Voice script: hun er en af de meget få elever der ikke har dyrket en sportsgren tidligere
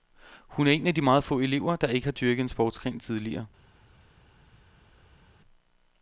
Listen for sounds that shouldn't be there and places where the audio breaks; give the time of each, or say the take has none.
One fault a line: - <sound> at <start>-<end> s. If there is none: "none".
none